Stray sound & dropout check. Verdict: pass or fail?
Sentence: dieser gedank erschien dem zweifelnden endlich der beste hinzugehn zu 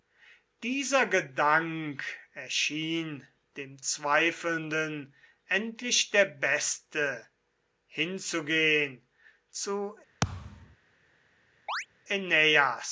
fail